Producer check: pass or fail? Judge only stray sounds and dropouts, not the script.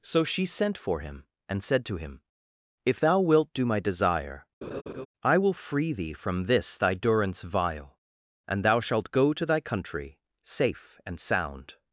fail